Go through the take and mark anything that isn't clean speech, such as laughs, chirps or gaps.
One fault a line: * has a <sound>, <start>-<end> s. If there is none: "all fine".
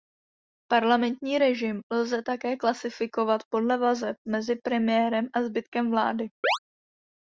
* has a chirp, 6.4-6.6 s